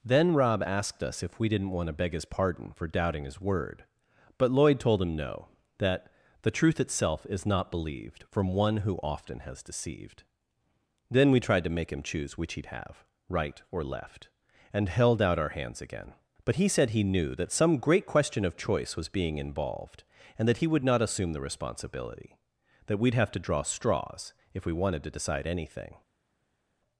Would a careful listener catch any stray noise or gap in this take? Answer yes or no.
no